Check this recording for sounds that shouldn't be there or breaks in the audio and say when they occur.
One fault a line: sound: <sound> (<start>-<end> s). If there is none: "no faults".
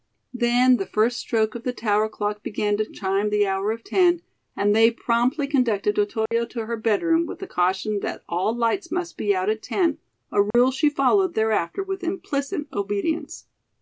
sound: dropout (6.3-6.3 s)
sound: dropout (10.5-10.5 s)